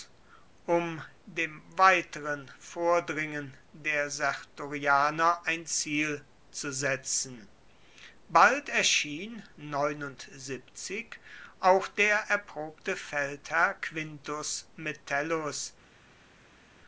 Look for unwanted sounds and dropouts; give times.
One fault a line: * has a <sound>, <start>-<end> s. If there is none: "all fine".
all fine